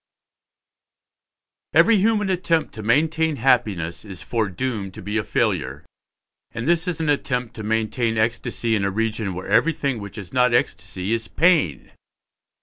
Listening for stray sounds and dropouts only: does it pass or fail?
pass